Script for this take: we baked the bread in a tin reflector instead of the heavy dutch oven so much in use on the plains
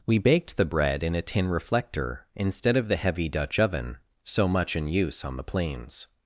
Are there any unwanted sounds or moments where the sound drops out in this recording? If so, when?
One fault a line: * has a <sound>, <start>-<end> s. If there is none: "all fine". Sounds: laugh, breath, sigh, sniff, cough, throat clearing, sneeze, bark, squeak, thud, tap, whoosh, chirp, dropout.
all fine